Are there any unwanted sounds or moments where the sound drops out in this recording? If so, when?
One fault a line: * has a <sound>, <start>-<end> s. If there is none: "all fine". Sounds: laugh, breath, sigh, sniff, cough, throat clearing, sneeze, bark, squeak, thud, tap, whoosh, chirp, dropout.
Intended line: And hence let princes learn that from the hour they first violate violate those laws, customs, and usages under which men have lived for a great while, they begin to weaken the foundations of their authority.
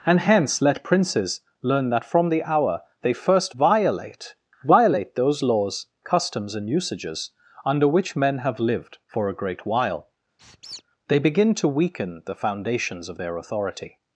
* has a squeak, 10.4-10.8 s